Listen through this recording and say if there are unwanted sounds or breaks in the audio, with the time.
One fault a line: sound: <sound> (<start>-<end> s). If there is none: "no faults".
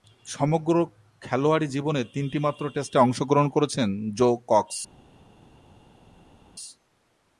no faults